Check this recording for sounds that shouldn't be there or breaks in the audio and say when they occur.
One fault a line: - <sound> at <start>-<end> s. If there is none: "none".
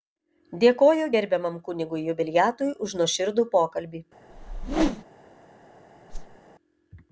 - whoosh at 4.3-5.0 s
- whoosh at 6.1-6.4 s